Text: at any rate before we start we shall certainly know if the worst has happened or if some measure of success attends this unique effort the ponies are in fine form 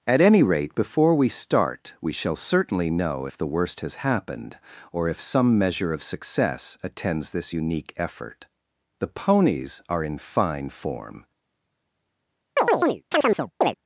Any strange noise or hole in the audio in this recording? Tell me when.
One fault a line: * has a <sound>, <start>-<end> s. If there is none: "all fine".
* has a chirp, 12.6-13.7 s